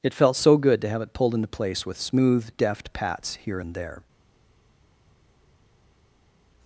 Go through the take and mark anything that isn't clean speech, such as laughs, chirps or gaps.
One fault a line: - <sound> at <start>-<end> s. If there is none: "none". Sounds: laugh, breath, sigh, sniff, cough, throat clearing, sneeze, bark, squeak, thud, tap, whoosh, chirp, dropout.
none